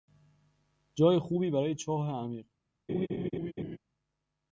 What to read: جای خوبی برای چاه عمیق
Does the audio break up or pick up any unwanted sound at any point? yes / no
yes